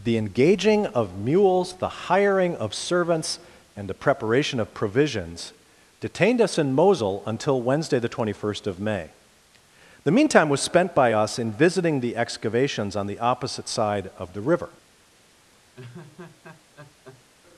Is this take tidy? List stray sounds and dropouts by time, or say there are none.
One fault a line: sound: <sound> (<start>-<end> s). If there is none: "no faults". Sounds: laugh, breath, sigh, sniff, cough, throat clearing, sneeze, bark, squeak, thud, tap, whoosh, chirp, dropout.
sound: laugh (15.8-17.3 s)